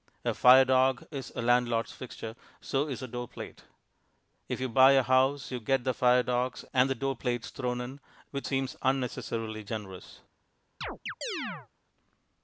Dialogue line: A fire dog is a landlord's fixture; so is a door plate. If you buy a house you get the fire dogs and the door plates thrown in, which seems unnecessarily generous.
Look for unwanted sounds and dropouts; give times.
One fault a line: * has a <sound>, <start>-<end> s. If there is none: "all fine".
* has a chirp, 10.8-11.7 s